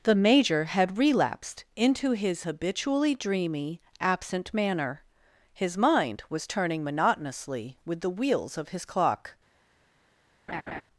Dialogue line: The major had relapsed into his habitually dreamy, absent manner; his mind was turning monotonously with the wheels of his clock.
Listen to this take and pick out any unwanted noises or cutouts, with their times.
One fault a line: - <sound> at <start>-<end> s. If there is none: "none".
- laugh at 10.5-10.8 s